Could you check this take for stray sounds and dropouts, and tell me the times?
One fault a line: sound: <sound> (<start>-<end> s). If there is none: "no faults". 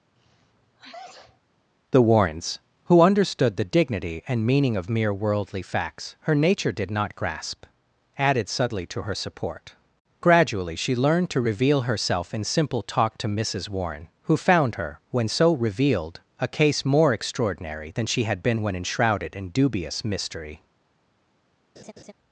sound: sneeze (0.2-1.4 s)
sound: laugh (21.8-22.1 s)